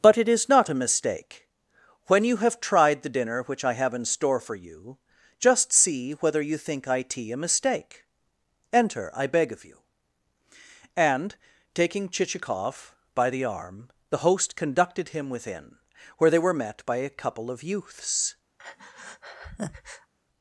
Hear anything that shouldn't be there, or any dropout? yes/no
yes